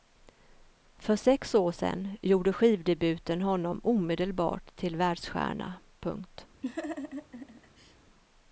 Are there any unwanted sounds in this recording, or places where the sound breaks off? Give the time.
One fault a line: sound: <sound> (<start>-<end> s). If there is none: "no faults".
sound: laugh (6.6-8.0 s)